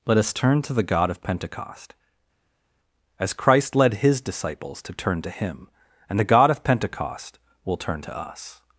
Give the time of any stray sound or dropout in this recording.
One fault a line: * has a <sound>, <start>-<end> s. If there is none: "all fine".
all fine